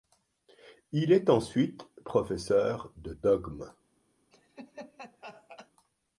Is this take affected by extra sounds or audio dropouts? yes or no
yes